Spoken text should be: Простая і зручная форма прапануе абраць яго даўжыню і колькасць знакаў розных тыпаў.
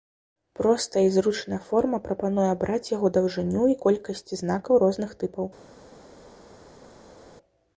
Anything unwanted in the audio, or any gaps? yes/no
no